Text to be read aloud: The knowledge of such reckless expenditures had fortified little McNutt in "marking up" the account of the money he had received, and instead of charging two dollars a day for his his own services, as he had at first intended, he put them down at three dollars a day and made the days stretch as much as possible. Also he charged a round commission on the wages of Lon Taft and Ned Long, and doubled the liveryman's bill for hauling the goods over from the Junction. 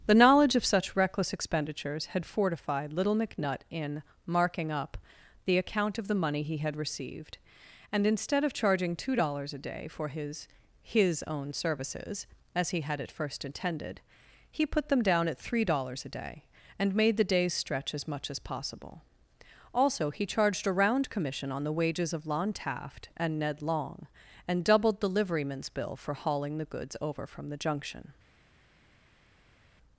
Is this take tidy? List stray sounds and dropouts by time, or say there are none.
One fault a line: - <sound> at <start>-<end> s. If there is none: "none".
none